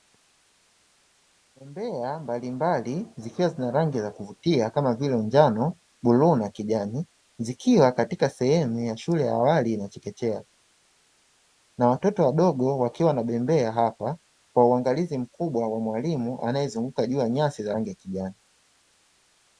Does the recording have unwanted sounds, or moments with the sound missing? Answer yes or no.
no